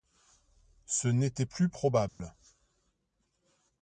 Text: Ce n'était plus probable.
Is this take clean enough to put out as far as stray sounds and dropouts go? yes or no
no